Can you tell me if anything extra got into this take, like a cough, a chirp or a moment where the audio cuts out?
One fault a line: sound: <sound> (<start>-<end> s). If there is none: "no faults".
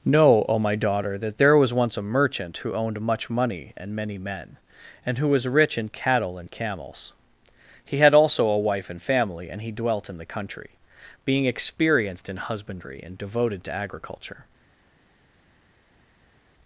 no faults